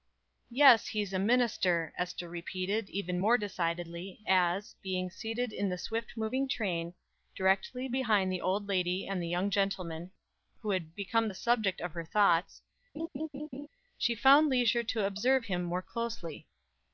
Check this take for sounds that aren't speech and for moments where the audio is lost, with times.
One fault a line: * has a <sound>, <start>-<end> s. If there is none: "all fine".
* has a laugh, 13.0-13.7 s